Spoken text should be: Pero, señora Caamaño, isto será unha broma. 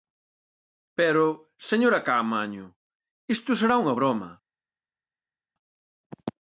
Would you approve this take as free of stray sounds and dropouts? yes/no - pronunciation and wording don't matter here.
yes